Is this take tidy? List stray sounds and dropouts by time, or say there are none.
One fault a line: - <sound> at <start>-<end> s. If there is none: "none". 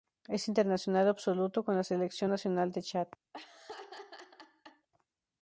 - laugh at 3.3-4.9 s